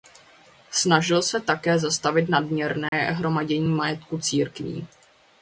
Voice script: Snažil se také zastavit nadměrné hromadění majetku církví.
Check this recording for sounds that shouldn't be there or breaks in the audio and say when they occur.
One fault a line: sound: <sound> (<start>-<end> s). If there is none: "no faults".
sound: dropout (2.9-2.9 s)